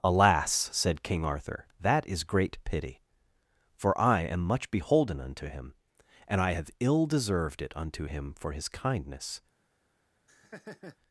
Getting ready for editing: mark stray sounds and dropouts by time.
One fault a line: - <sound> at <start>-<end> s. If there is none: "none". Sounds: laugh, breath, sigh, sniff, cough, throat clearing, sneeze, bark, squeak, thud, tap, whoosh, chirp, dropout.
- laugh at 10.3-11.0 s